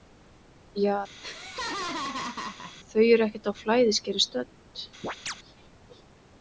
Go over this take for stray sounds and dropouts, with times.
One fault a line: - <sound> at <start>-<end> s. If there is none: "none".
- laugh at 1.2-2.8 s
- chirp at 5.0-5.3 s